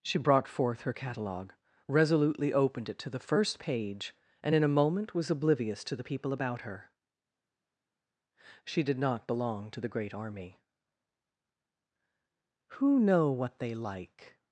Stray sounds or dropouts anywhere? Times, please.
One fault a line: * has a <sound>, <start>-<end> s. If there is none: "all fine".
all fine